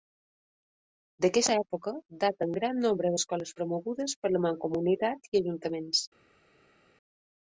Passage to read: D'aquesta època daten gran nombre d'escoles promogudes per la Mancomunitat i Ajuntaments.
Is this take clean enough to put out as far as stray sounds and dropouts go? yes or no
yes